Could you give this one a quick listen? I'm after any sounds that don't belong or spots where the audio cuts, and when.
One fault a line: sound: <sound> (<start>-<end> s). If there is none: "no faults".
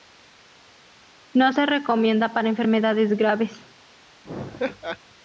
sound: laugh (4.2-5.0 s)